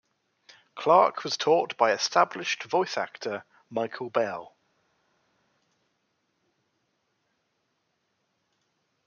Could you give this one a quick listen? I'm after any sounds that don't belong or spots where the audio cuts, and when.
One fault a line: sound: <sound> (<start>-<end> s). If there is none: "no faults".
no faults